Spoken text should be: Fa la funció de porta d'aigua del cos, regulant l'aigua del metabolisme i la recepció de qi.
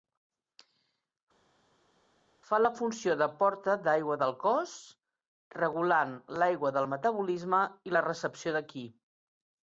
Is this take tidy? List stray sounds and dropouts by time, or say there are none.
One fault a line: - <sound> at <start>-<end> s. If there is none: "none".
none